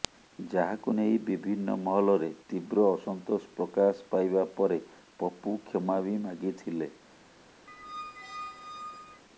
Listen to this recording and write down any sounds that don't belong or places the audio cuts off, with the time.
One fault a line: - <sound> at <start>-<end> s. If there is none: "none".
- squeak at 7.7-9.2 s